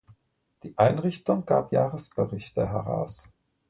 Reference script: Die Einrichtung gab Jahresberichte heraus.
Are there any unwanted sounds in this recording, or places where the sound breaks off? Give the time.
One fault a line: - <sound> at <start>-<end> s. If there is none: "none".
none